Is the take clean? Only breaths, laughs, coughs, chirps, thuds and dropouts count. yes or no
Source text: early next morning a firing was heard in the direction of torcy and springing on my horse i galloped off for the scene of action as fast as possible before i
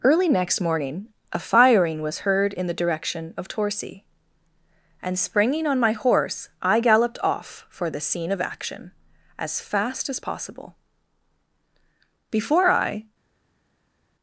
yes